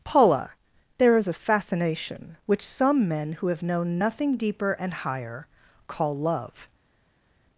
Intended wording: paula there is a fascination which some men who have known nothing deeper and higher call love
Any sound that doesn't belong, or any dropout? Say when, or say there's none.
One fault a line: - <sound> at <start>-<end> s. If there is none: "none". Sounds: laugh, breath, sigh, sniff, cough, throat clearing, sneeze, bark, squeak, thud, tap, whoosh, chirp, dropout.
none